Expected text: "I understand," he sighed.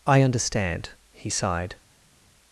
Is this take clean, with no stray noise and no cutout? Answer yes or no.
yes